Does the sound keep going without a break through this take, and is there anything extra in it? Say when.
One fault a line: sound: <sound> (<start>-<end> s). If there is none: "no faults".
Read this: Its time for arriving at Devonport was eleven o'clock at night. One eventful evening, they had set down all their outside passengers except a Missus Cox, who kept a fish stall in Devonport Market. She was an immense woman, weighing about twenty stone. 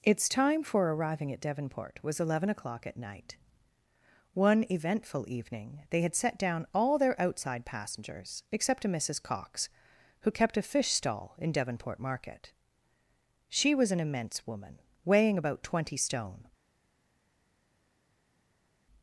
no faults